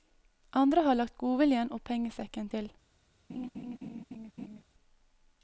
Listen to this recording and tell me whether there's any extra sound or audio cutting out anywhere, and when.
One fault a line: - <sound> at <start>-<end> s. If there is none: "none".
- laugh at 3.3-4.6 s